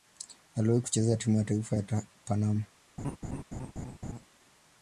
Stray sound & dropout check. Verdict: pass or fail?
fail